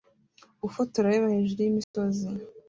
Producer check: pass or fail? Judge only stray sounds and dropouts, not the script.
fail